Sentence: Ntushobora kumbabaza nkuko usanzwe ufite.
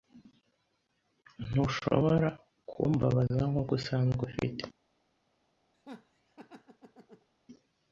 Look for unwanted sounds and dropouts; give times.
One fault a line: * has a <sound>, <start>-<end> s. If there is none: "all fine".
* has a laugh, 5.7-7.3 s